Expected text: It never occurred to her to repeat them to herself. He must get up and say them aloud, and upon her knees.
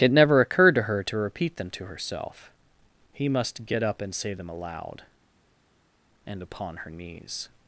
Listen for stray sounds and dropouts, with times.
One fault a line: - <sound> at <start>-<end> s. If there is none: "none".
none